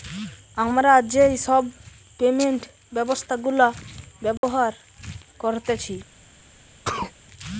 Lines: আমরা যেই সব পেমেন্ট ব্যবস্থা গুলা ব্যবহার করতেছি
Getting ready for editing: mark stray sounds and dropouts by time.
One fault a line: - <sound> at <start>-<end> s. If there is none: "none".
- dropout at 4.4-4.4 s
- sneeze at 6.8-7.1 s